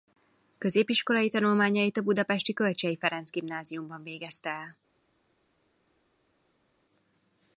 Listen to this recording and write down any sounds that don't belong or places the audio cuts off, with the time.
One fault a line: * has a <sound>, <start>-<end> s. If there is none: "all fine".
all fine